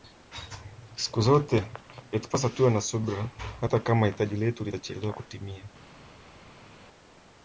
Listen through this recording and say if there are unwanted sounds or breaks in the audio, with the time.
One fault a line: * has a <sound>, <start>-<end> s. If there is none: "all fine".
all fine